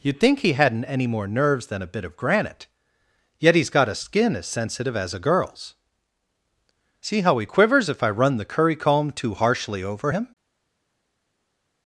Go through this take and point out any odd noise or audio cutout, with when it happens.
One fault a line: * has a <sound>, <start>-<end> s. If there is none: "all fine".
all fine